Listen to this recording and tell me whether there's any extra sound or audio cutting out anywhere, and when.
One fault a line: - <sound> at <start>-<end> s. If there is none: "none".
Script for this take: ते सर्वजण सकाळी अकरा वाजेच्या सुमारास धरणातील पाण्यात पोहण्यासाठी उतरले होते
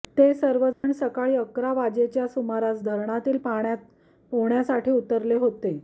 - dropout at 0.7-0.8 s